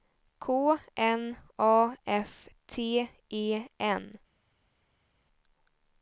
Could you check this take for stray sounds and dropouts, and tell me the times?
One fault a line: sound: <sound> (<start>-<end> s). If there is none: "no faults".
no faults